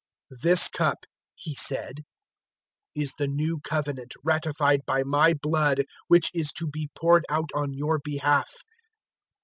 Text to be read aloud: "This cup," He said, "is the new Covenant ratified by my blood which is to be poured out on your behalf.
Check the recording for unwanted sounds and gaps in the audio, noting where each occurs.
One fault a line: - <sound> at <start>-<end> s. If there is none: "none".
none